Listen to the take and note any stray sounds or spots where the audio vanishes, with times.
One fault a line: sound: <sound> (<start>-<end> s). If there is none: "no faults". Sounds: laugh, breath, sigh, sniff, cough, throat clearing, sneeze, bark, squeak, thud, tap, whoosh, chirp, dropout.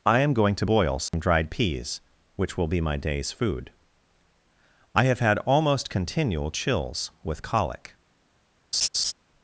sound: dropout (1.1-1.1 s)
sound: laugh (8.7-9.1 s)